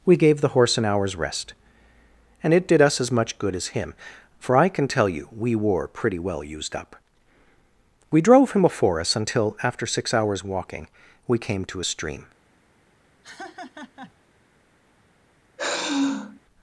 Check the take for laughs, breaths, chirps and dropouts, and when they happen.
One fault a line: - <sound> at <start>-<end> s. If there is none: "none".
- laugh at 13.2-14.1 s
- sigh at 15.6-16.4 s